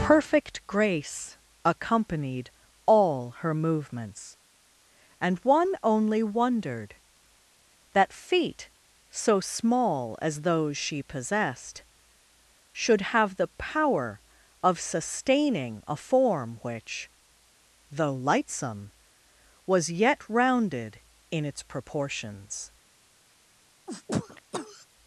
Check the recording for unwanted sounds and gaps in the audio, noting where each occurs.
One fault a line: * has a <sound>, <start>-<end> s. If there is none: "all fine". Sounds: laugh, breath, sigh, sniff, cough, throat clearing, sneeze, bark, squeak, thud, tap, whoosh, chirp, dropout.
* has a sneeze, 23.9-24.9 s